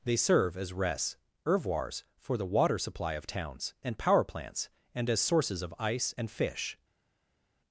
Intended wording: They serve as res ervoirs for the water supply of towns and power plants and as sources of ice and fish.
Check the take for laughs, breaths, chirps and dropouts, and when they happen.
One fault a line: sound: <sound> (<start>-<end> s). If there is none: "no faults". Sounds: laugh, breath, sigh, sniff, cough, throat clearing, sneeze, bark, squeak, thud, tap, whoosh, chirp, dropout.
no faults